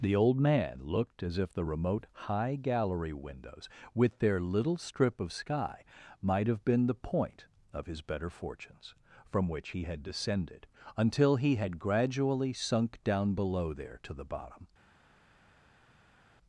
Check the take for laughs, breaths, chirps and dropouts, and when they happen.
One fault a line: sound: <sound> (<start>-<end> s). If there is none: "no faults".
no faults